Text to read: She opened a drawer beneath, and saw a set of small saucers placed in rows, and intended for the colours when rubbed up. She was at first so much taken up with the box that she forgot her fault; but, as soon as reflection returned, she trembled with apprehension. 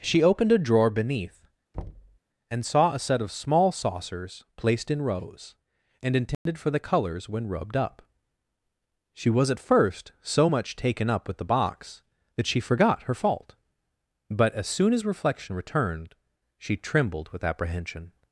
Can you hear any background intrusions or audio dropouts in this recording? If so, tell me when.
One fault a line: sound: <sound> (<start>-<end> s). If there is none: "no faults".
sound: thud (1.7-2.2 s)
sound: dropout (6.3-6.5 s)